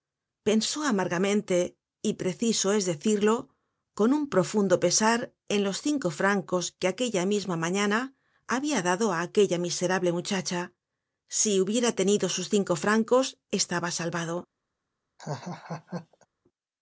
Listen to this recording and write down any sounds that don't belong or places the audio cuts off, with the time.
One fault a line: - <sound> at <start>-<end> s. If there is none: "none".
- laugh at 15.2-16.3 s